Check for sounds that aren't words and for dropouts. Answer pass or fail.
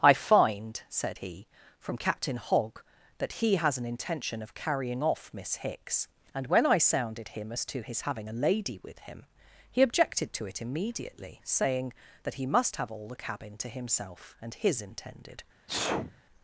fail